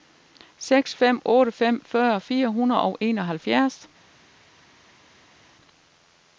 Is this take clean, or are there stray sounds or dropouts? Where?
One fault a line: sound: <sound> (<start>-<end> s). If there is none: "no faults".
no faults